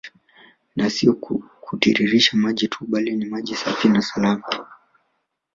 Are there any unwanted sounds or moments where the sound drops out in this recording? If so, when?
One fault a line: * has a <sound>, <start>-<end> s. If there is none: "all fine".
all fine